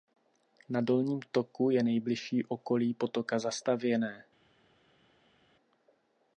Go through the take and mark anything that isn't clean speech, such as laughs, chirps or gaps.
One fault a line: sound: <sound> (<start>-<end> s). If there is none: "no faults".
no faults